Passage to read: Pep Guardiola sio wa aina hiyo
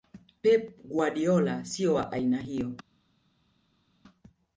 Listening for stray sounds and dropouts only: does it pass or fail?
pass